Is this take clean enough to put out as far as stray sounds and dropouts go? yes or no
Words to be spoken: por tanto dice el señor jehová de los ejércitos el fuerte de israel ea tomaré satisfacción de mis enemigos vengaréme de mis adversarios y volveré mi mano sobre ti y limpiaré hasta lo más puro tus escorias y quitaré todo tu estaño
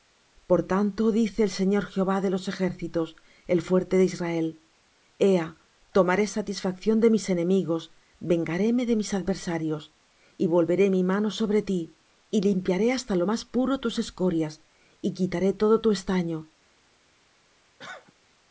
no